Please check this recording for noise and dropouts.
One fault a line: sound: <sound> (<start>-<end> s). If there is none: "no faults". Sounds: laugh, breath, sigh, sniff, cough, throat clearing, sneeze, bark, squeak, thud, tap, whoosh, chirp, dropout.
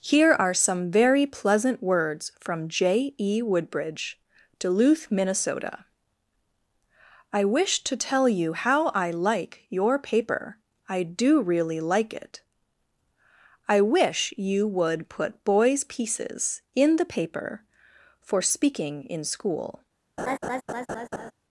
sound: laugh (20.2-21.3 s)